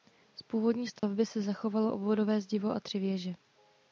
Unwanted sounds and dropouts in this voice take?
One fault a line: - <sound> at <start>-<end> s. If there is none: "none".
- dropout at 1.0-1.0 s